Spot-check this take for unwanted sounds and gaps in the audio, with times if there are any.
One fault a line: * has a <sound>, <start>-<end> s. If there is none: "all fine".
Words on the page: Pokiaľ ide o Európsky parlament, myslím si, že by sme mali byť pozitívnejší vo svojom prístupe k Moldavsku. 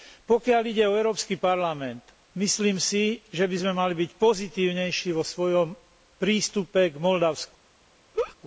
* has a laugh, 8.1-8.4 s